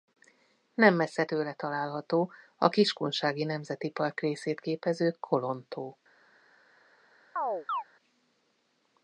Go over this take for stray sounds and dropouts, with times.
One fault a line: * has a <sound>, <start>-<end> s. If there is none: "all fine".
* has a chirp, 7.4-7.8 s